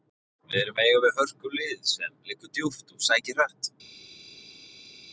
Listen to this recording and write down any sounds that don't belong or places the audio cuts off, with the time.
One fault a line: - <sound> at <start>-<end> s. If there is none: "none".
none